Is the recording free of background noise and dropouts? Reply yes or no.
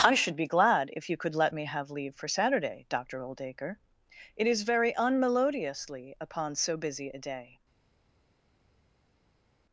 yes